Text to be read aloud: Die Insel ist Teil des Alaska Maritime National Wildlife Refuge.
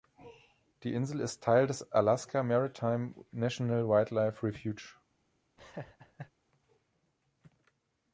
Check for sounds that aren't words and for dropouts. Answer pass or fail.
fail